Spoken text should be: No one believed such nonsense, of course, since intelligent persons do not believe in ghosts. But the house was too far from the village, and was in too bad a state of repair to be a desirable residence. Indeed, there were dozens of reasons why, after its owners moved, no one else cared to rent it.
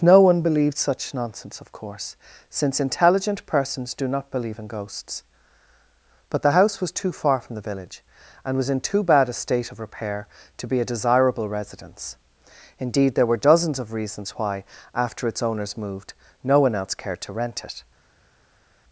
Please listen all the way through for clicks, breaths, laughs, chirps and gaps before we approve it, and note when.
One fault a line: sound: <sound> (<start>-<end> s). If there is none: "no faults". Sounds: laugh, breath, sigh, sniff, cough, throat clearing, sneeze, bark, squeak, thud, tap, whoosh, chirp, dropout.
no faults